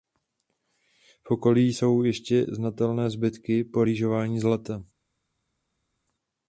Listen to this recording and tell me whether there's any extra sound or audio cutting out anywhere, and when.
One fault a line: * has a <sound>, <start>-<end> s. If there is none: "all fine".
all fine